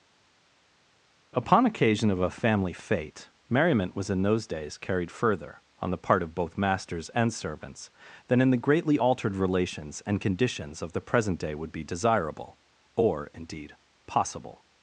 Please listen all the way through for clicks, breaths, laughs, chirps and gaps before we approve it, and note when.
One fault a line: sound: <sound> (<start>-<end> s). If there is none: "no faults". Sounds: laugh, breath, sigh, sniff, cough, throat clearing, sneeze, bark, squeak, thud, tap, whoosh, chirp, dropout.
no faults